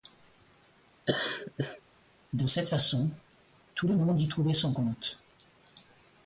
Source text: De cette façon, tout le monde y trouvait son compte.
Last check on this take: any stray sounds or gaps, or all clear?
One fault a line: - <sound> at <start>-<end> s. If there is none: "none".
- laugh at 1.1-1.8 s